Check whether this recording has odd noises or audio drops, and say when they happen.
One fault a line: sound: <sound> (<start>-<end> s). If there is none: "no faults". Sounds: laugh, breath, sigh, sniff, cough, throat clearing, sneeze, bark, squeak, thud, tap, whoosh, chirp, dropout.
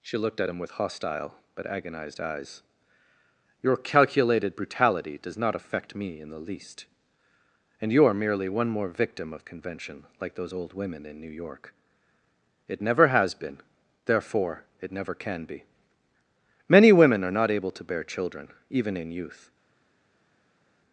no faults